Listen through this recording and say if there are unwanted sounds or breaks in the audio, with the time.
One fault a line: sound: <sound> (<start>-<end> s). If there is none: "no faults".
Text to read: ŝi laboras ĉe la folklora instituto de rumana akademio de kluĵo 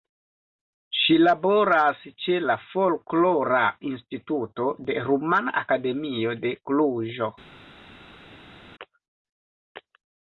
no faults